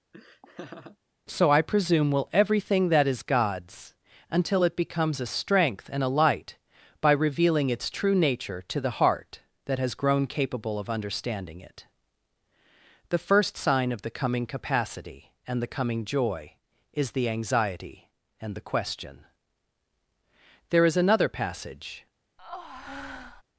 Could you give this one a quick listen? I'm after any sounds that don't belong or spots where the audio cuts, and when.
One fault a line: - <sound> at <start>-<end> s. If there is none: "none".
- laugh at 0.1-1.0 s
- breath at 22.4-23.4 s